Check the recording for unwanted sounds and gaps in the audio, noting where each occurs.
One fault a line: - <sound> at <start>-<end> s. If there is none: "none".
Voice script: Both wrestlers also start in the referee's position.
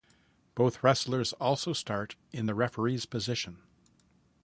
none